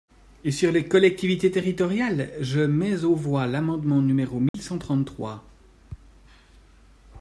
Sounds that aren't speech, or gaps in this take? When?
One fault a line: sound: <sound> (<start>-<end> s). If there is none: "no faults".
sound: dropout (4.5-4.5 s)